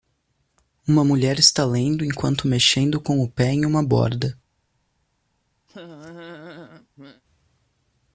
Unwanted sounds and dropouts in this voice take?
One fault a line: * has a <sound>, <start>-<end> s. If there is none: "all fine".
* has a laugh, 5.7-7.2 s